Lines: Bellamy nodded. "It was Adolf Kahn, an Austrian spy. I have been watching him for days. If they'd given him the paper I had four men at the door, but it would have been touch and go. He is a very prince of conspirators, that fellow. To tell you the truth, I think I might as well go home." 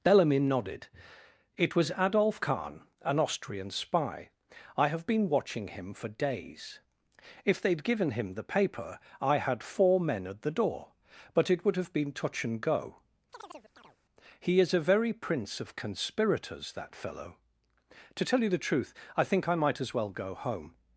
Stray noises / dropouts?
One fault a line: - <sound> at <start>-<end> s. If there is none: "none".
- chirp at 13.3-14.0 s